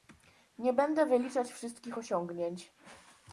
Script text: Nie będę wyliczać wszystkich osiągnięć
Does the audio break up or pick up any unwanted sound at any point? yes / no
no